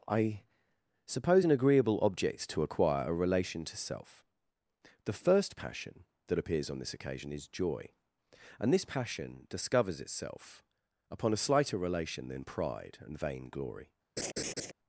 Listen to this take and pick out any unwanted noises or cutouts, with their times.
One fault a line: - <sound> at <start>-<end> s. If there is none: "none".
- laugh at 14.2-14.7 s